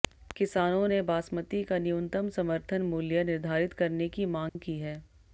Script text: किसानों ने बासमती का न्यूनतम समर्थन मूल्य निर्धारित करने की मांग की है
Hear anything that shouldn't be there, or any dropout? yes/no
yes